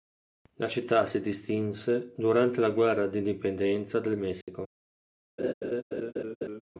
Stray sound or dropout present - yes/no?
yes